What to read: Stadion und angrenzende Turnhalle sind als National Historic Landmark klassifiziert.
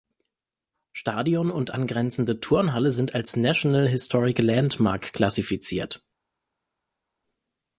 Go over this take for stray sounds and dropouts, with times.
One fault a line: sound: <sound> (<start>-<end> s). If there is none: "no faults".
no faults